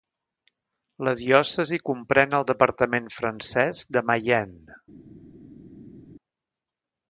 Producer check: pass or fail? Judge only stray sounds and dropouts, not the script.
pass